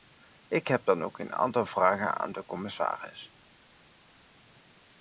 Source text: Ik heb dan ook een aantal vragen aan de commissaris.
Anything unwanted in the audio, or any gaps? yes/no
no